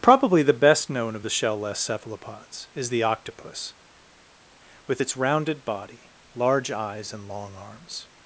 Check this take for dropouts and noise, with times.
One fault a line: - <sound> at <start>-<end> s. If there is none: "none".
none